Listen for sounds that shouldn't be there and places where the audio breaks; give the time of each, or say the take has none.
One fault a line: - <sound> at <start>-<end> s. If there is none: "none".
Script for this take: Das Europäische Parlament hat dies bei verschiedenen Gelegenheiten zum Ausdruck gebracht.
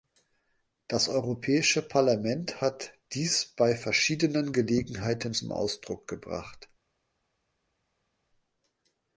none